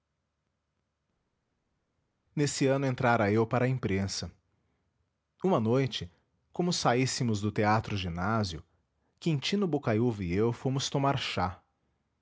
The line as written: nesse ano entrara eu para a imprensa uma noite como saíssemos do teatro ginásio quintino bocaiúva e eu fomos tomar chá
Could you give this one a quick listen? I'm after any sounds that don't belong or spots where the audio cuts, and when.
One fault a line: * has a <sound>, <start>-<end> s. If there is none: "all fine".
all fine